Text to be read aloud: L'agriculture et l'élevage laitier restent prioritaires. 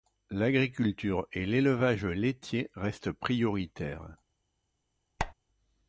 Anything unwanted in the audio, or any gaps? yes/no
yes